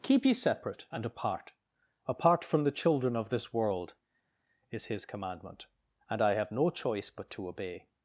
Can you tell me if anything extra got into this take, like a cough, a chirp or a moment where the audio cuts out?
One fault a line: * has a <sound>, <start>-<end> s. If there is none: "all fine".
all fine